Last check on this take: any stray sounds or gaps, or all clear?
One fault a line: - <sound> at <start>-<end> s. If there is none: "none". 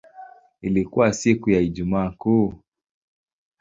none